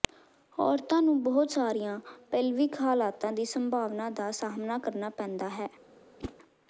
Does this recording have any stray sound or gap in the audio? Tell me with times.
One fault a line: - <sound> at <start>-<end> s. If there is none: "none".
- whoosh at 6.2-6.3 s